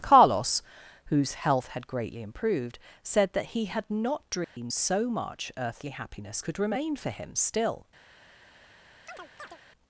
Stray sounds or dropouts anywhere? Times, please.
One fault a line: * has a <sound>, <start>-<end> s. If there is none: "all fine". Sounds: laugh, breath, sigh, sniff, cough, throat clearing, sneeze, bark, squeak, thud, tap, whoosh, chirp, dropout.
* has a dropout, 4.4-4.6 s
* has a chirp, 9.1-9.6 s